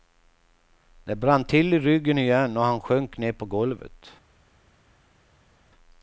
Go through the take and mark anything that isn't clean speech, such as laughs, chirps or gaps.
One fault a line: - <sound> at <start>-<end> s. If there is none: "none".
none